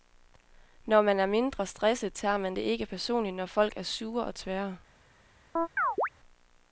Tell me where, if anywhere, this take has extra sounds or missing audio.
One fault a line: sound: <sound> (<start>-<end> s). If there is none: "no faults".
sound: chirp (5.6-6.1 s)